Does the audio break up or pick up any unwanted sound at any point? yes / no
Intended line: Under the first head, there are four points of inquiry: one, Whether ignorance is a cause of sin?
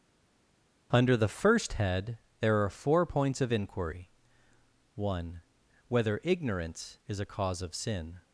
no